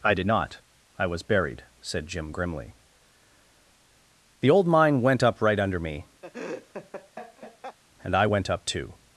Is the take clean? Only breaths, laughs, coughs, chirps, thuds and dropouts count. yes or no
no